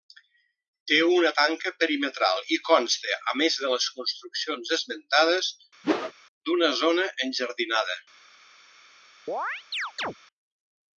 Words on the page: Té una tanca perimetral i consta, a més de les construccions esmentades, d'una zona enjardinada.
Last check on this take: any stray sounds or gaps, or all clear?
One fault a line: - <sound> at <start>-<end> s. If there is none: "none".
- whoosh at 5.8-6.1 s
- chirp at 9.3-10.1 s